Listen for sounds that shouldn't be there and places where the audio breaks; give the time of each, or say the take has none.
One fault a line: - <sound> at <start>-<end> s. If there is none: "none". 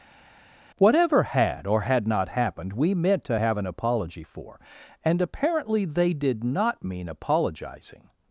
none